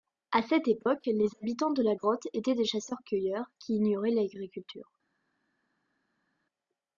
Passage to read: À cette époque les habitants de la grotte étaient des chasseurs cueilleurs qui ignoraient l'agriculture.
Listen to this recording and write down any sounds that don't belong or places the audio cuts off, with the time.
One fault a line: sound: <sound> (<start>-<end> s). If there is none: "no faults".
no faults